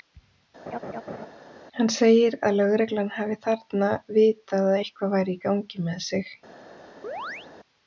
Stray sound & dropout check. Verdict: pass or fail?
fail